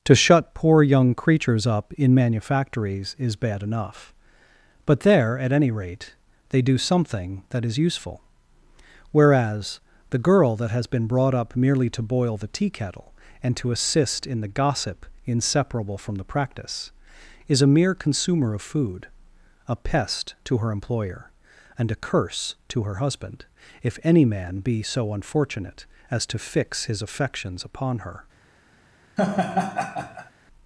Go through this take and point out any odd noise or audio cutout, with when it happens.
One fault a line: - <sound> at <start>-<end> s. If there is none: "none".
- laugh at 29.2-30.3 s